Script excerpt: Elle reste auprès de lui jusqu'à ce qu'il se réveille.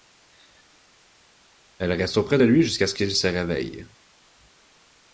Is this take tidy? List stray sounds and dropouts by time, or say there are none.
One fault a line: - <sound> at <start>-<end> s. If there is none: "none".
none